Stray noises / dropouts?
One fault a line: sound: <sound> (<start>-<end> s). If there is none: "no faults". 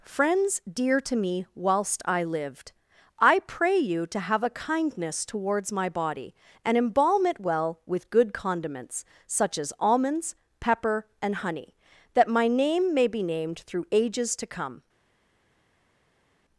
no faults